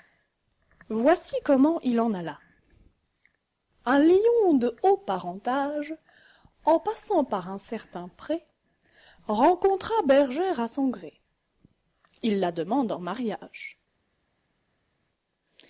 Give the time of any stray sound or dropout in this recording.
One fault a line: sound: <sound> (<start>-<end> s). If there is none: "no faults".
no faults